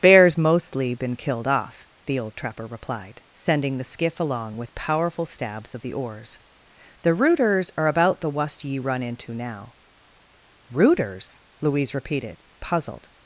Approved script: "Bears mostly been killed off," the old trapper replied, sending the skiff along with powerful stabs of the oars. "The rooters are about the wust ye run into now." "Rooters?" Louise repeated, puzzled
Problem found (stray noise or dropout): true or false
false